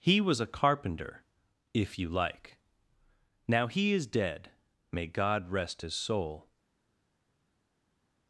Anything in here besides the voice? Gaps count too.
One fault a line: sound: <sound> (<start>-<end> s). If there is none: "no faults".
no faults